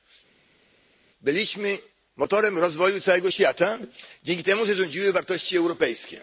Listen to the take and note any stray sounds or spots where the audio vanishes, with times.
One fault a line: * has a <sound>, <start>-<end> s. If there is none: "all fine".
all fine